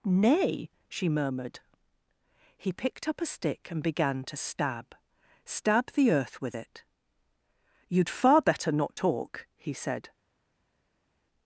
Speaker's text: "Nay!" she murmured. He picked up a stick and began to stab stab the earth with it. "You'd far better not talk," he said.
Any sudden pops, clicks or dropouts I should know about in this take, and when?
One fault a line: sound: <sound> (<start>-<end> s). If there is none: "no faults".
no faults